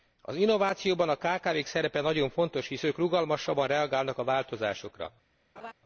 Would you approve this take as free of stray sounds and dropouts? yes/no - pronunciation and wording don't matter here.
no